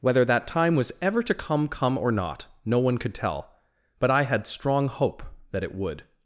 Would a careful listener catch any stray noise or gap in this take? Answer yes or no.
no